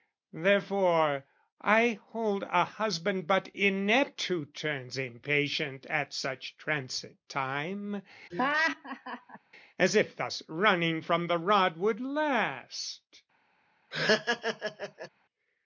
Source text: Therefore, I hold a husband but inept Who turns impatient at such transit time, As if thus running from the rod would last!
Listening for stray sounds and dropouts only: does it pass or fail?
fail